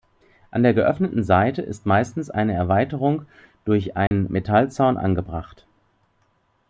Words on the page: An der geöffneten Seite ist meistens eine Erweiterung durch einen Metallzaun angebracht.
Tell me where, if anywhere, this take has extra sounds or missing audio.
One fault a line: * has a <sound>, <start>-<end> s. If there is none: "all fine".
* has a dropout, 4.1-4.1 s